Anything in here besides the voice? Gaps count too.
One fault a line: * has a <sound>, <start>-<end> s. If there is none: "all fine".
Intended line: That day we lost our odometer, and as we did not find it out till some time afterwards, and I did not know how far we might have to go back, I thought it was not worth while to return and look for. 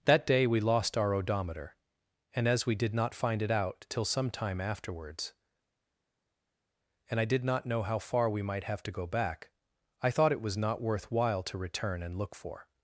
all fine